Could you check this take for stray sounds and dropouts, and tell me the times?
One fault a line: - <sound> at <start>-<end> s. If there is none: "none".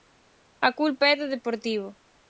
none